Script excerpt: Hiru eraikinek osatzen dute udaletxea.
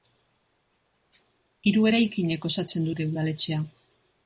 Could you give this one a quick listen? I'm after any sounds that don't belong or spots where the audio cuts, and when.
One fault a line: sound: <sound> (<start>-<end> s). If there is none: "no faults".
no faults